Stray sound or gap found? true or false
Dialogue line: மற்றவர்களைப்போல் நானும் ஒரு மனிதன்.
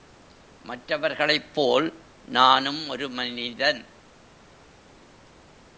false